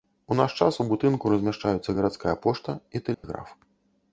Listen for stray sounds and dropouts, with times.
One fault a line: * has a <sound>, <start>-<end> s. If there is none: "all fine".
* has a dropout, 3.1-3.2 s